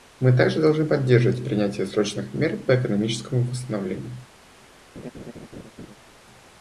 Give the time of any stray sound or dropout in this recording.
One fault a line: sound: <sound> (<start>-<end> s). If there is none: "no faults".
sound: laugh (4.9-6.0 s)